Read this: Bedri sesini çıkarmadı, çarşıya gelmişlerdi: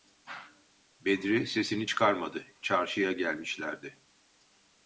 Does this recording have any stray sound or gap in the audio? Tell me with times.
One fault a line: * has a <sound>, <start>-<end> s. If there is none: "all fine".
all fine